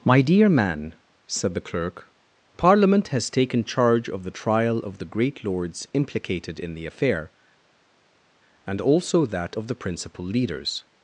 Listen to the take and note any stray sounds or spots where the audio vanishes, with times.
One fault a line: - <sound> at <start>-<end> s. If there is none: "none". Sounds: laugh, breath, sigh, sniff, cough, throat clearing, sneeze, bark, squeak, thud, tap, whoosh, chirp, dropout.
none